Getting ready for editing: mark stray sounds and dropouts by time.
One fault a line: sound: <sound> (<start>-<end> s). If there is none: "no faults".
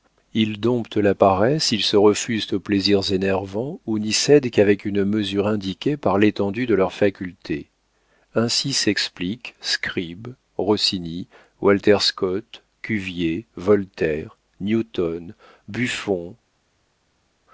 no faults